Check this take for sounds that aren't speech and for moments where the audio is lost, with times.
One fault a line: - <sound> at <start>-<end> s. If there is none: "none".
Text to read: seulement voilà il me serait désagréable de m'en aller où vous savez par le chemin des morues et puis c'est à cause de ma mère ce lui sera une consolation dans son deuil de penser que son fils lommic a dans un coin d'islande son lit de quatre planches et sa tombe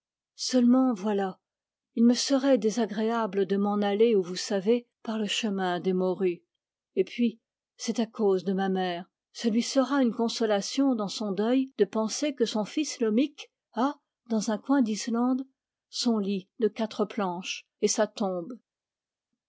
none